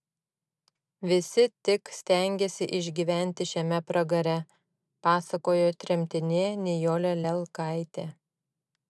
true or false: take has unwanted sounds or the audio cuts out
false